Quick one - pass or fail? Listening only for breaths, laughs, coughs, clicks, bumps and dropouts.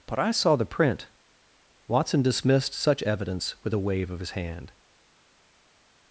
pass